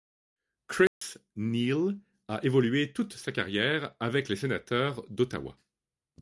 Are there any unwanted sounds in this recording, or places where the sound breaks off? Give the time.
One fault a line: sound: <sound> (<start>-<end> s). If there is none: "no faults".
sound: dropout (0.9-1.0 s)